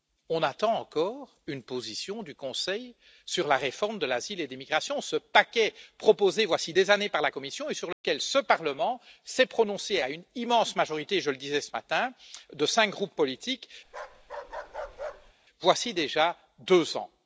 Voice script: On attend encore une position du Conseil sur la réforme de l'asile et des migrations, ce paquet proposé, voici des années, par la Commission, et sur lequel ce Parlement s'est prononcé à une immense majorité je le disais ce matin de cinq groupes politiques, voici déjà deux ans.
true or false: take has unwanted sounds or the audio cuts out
true